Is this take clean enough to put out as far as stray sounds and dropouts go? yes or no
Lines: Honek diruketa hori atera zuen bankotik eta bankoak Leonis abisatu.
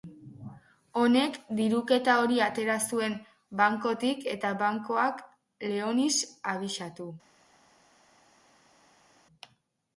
yes